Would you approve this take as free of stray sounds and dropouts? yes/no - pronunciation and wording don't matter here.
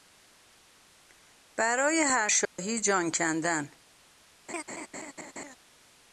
no